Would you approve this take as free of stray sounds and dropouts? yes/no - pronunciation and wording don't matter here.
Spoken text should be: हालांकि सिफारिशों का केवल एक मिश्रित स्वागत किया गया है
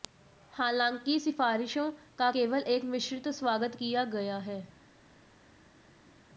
yes